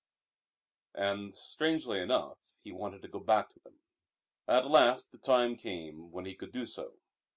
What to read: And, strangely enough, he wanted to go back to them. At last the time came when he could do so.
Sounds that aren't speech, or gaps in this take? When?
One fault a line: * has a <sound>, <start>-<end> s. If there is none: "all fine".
all fine